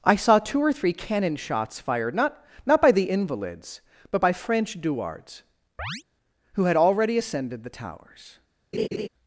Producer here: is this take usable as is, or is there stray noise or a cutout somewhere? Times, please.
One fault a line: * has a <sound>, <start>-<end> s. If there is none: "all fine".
* has a chirp, 5.8-6.0 s
* has a laugh, 8.7-9.1 s